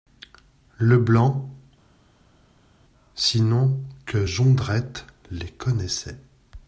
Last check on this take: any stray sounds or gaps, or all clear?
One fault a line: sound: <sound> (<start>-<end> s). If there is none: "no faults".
no faults